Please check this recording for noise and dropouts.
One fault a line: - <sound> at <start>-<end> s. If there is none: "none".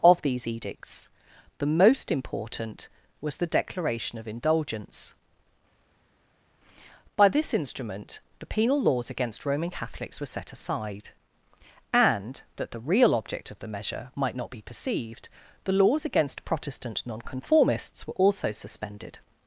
none